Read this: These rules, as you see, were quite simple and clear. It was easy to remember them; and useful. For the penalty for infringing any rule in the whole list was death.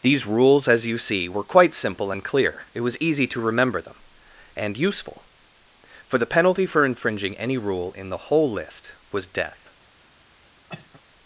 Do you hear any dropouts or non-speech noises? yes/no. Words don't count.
yes